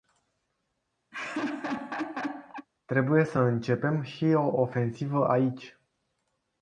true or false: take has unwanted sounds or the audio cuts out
true